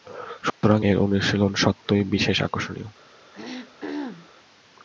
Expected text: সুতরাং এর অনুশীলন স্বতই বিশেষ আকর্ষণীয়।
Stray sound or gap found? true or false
true